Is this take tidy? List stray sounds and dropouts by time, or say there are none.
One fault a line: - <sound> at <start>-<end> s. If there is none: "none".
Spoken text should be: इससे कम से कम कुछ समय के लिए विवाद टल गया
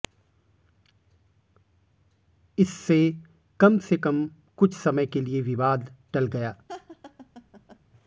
- laugh at 6.7-7.8 s